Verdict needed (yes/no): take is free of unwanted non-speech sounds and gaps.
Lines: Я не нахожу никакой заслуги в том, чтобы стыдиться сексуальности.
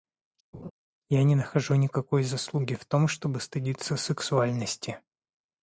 no